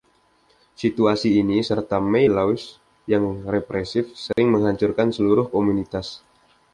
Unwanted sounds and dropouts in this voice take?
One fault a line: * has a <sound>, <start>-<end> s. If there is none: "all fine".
* has a dropout, 4.3-4.4 s